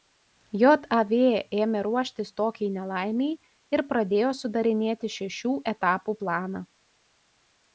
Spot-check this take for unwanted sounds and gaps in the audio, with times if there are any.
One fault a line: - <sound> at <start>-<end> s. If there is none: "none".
none